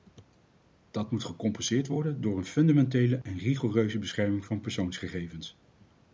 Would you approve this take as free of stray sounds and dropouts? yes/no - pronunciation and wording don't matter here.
no